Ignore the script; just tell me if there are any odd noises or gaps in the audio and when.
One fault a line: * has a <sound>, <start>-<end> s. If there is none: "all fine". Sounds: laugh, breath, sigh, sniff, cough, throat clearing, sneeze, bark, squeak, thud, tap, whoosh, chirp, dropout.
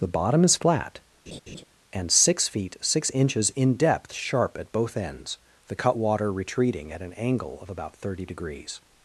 * has a laugh, 1.3-1.6 s